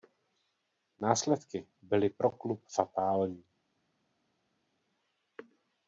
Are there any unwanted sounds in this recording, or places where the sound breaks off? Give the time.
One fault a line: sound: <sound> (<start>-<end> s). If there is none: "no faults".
no faults